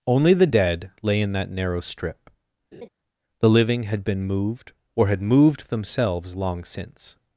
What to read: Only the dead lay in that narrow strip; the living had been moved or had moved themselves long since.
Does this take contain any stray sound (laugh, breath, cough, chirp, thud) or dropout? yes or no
yes